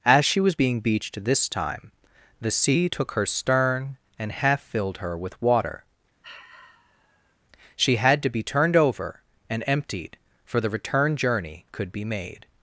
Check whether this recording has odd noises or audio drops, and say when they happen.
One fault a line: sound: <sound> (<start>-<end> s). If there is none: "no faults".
sound: sigh (6.2-7.4 s)